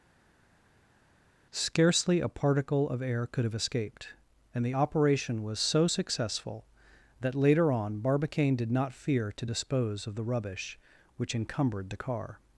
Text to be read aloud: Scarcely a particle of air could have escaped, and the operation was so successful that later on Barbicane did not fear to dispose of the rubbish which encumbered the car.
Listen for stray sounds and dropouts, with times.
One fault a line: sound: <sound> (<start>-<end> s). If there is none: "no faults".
no faults